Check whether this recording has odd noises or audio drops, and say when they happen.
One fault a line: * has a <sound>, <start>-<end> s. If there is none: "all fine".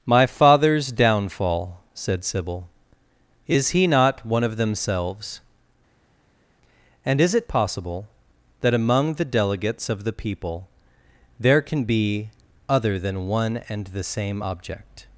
all fine